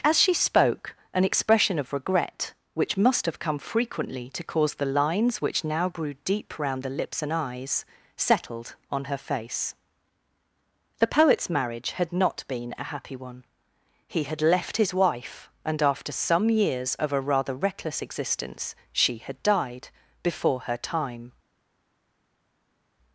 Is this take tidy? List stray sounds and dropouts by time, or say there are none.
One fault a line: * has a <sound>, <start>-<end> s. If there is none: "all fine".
all fine